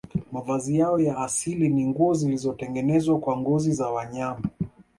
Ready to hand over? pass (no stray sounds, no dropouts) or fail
pass